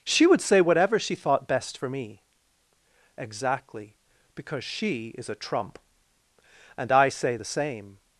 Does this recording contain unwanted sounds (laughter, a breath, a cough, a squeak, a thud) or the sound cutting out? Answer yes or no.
no